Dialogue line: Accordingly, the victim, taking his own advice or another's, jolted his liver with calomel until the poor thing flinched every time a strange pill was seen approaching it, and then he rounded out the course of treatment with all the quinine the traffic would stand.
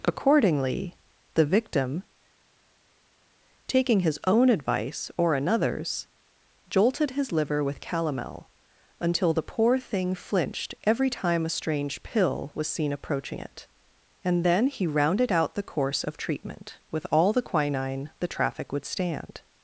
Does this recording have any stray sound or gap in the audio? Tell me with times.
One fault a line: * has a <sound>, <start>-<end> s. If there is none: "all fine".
all fine